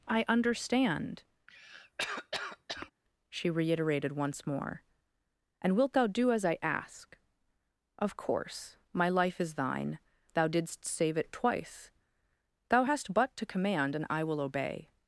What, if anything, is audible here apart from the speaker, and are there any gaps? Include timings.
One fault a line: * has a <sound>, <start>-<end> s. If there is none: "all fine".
* has a cough, 1.5-2.9 s